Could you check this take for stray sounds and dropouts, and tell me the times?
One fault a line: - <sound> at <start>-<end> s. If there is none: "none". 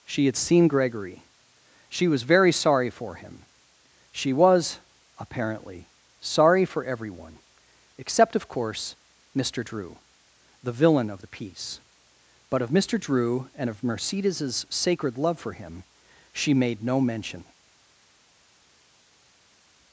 none